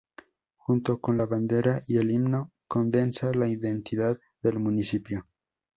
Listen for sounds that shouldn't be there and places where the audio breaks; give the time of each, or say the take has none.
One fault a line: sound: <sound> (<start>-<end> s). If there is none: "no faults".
no faults